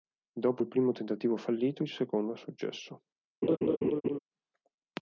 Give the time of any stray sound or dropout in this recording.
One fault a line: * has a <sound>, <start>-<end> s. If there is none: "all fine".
* has a laugh, 3.4-4.2 s